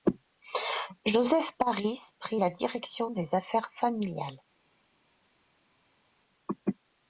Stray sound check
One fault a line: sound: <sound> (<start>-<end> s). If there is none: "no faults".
no faults